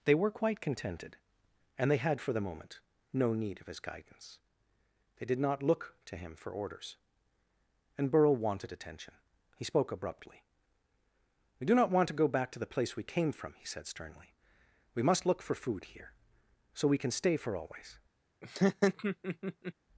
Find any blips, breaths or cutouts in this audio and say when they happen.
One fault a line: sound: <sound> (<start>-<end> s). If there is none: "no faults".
sound: laugh (18.4-19.7 s)